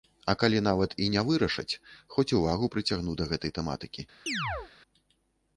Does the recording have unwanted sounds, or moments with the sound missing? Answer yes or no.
yes